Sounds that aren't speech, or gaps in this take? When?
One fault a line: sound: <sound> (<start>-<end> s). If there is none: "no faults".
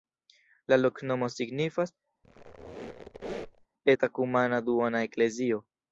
sound: squeak (2.2-3.7 s)